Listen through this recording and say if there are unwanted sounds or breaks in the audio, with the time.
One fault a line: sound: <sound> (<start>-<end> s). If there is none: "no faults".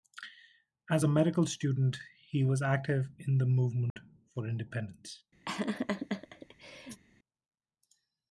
sound: dropout (3.9-4.0 s)
sound: laugh (5.5-7.0 s)